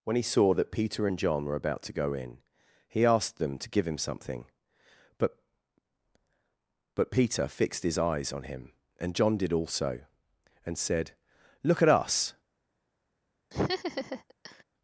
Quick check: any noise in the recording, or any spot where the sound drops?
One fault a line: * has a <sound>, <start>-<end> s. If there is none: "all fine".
* has a laugh, 13.5-14.6 s